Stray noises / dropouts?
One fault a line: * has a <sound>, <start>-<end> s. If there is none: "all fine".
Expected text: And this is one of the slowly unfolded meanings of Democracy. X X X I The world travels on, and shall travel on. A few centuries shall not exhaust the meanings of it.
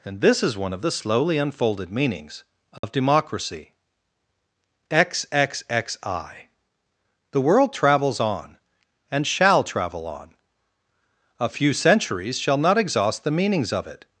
* has a dropout, 2.8-2.8 s